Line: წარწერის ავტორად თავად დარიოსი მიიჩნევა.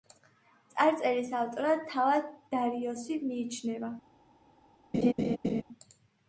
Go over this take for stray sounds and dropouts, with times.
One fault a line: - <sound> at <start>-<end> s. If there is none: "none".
- laugh at 4.9-5.6 s